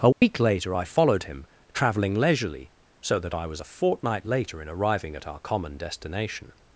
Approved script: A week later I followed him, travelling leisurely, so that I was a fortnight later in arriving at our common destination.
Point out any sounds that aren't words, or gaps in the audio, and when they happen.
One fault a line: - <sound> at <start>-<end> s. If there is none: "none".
- dropout at 0.1-0.2 s